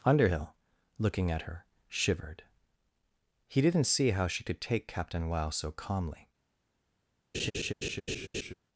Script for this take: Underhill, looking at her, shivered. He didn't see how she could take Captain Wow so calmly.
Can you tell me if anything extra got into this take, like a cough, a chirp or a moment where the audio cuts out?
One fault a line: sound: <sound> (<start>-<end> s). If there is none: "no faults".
sound: laugh (7.3-8.5 s)